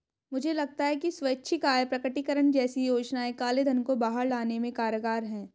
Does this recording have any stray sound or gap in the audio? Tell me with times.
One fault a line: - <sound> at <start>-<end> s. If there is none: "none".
none